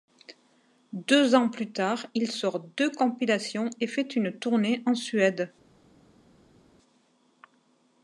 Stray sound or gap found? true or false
false